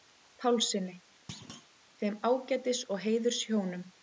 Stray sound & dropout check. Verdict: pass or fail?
fail